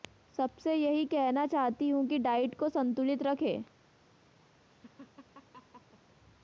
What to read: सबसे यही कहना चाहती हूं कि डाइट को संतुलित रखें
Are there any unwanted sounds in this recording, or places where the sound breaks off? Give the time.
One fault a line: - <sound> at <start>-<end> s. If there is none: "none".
- laugh at 4.7-6.0 s